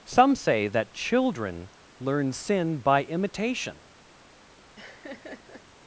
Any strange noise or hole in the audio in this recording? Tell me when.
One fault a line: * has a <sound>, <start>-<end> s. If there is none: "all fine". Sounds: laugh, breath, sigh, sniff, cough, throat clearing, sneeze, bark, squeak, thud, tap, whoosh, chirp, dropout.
* has a laugh, 4.8-5.6 s